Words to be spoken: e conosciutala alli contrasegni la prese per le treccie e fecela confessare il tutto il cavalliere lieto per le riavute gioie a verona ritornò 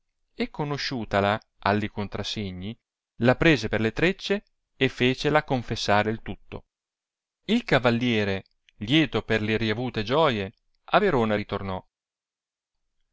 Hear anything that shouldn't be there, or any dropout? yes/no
no